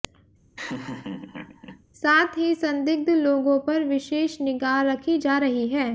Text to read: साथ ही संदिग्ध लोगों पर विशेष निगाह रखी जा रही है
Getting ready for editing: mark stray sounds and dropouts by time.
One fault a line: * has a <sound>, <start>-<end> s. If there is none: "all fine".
* has a laugh, 0.6-1.8 s